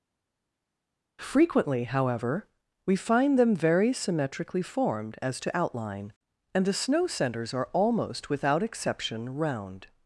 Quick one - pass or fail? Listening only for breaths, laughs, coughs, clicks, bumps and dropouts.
pass